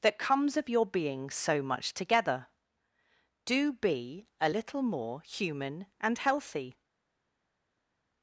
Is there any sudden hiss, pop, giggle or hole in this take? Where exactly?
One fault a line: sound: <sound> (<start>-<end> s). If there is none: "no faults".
no faults